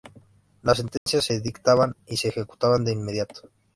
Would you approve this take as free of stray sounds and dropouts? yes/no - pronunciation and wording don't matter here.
no